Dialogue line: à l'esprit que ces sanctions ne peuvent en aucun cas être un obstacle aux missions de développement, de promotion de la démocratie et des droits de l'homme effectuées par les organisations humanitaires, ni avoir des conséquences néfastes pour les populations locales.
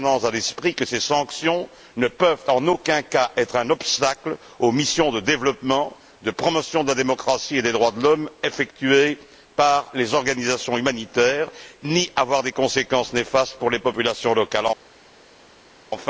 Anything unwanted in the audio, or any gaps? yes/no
no